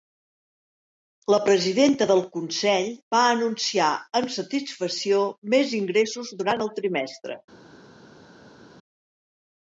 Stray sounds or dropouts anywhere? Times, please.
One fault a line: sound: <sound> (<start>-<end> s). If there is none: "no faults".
no faults